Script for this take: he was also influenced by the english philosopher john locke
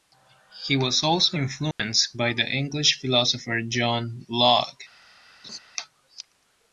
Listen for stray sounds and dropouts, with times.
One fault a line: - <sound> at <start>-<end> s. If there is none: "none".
- dropout at 1.7-1.8 s
- laugh at 5.4-5.6 s